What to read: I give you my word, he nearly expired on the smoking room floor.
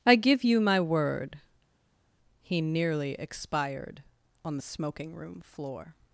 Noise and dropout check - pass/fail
pass